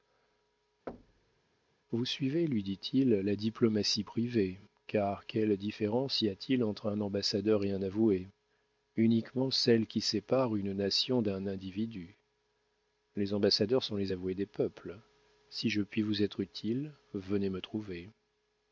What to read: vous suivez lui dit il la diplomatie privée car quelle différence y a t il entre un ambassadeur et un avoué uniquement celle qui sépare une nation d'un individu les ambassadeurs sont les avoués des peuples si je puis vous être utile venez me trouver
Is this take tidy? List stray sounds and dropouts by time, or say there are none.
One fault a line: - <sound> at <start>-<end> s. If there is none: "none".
- thud at 0.9-1.4 s